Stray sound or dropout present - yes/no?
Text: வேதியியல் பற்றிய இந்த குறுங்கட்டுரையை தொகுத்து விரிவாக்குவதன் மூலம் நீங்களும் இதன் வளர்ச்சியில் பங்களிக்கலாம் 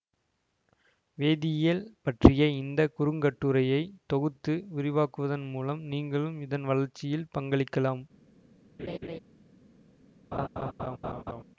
yes